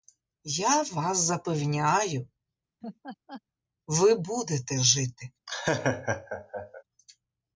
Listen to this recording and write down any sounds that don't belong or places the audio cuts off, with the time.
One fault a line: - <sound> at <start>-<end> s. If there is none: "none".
- laugh at 2.8-3.4 s
- laugh at 5.5-6.8 s